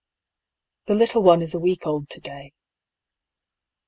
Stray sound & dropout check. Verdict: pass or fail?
pass